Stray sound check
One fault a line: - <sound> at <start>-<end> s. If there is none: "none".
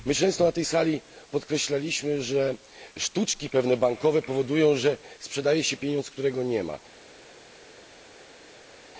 none